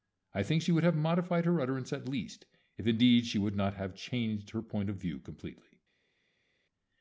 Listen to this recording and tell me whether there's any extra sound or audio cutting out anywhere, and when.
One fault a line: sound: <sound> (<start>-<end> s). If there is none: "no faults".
no faults